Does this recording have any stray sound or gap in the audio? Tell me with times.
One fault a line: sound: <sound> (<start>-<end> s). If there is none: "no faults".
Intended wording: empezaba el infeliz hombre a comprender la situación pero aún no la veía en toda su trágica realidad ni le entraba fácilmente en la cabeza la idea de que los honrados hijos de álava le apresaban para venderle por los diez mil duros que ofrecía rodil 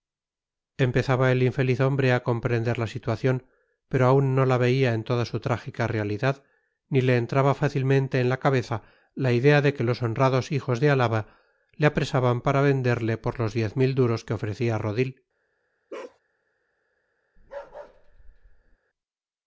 sound: bark (15.9-16.2 s)
sound: bark (17.4-18.8 s)